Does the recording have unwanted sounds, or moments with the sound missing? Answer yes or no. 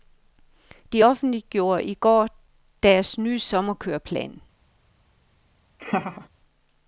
yes